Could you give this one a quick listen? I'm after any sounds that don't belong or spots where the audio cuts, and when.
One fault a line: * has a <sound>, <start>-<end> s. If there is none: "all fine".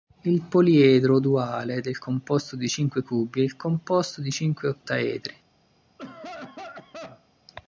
* has a cough, 6.0-7.3 s